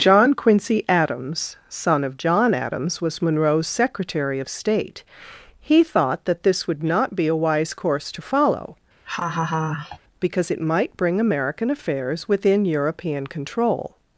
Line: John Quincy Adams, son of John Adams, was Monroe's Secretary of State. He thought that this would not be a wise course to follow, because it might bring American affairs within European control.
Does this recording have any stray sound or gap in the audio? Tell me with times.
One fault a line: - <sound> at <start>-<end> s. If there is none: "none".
- laugh at 9.0-10.0 s